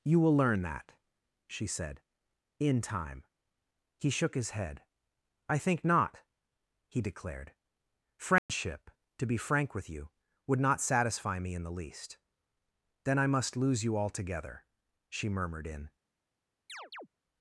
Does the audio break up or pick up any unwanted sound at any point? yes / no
yes